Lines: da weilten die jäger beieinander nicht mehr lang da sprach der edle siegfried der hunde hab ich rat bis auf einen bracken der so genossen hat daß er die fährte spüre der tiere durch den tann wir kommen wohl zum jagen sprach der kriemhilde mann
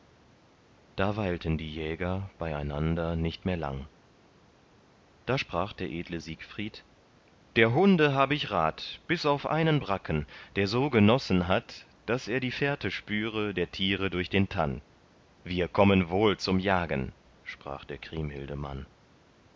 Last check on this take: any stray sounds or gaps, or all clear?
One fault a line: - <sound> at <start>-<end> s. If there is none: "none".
none